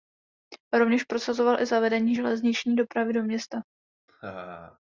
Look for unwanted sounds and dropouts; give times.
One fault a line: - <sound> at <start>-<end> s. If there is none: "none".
- laugh at 4.1-4.8 s